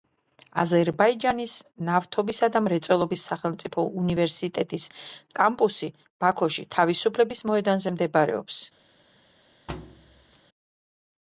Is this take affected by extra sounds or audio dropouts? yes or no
yes